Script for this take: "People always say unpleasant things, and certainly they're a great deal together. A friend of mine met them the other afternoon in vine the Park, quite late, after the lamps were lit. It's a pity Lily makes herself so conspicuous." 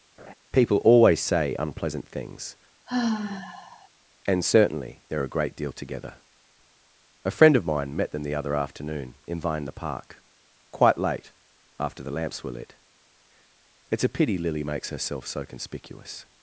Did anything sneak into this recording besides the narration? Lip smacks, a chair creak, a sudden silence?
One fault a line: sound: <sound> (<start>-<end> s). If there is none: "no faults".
sound: laugh (0.2-0.3 s)
sound: sigh (2.9-3.9 s)